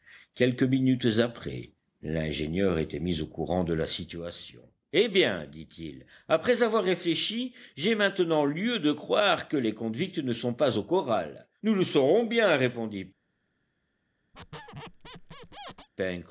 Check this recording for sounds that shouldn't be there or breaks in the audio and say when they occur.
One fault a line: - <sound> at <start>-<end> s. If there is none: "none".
- squeak at 14.3-15.9 s